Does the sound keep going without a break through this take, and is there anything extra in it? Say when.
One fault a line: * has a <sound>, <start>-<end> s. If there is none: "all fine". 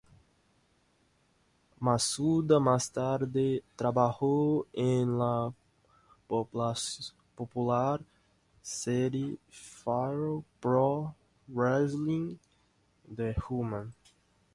all fine